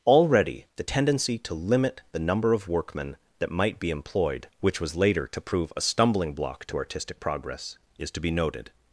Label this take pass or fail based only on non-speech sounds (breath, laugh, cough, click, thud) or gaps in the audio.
pass